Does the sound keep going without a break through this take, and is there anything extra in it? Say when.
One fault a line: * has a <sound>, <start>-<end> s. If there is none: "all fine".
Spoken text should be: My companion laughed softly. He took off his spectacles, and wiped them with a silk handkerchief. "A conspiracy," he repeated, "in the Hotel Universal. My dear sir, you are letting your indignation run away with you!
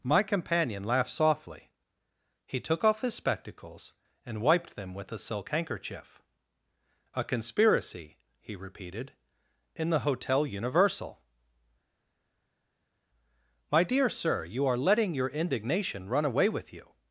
all fine